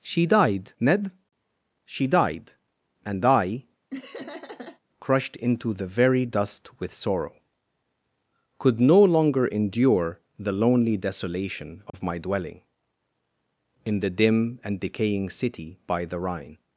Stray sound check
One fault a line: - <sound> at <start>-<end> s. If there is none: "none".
- laugh at 3.9-4.8 s
- dropout at 11.9-11.9 s